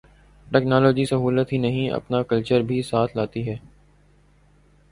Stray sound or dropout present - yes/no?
no